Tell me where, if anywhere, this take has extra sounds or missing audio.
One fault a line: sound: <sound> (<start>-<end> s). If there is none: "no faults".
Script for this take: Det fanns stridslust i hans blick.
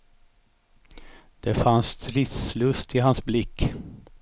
no faults